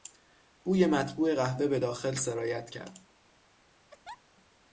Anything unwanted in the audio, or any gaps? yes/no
yes